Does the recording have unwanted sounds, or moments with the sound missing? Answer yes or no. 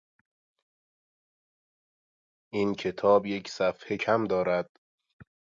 no